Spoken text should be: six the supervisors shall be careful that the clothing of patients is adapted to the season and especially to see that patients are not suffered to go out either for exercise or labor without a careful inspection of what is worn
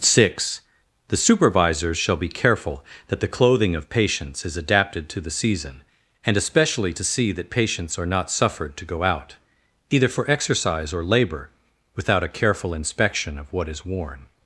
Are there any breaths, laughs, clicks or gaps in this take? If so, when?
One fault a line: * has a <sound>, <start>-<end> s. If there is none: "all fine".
all fine